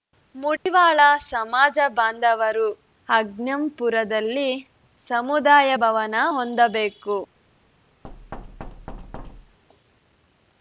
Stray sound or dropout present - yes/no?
yes